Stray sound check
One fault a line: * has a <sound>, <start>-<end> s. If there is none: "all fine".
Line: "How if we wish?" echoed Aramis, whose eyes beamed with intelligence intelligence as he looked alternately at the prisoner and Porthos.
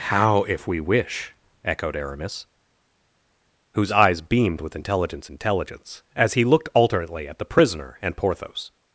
all fine